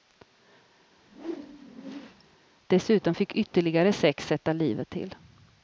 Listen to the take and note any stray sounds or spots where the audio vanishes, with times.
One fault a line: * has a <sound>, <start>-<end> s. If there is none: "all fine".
* has a whoosh, 1.0-2.4 s